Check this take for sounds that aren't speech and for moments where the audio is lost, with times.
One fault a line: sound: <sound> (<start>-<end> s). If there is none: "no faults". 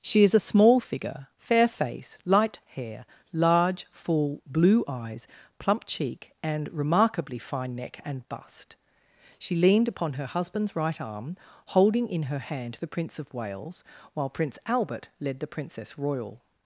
no faults